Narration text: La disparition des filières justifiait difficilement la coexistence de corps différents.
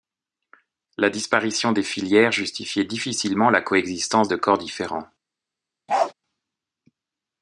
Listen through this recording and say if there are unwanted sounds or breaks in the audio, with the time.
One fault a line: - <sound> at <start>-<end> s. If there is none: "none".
- bark at 5.9-6.1 s